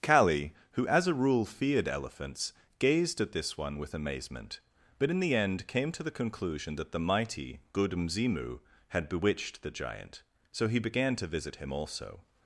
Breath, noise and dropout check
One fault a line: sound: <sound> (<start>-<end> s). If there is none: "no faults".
no faults